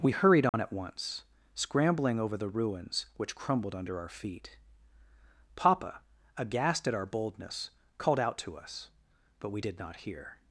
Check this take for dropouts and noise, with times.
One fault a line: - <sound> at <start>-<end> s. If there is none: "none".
- dropout at 0.5-0.5 s